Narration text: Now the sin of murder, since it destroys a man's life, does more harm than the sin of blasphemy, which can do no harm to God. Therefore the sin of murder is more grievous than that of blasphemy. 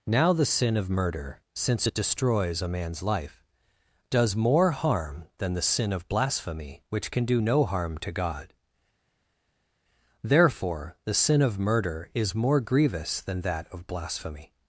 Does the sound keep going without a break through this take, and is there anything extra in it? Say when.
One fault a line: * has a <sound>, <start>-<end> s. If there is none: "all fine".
all fine